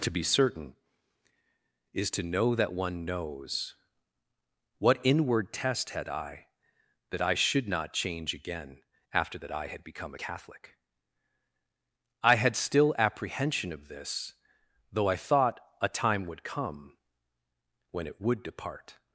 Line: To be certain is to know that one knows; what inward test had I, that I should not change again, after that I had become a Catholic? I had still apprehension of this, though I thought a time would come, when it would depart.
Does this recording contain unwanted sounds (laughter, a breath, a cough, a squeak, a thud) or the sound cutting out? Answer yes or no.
no